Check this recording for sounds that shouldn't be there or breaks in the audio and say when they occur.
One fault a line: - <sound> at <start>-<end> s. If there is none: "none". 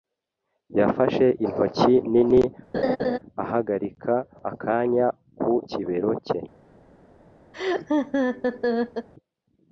- laugh at 2.7-3.2 s
- laugh at 7.5-9.1 s